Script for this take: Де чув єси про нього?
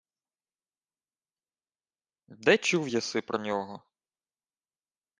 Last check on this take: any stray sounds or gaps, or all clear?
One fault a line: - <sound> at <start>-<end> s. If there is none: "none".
none